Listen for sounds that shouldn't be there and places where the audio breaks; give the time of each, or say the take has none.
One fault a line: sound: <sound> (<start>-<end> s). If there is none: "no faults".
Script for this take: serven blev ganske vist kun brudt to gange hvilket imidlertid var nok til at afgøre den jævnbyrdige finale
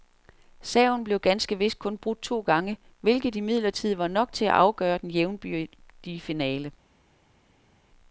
no faults